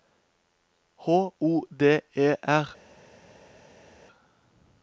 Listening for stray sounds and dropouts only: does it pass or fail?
pass